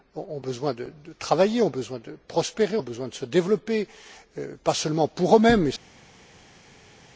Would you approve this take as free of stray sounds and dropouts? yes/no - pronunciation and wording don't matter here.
yes